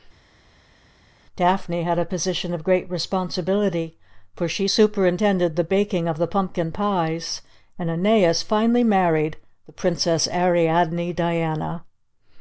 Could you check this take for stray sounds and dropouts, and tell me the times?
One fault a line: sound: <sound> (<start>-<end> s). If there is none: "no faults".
no faults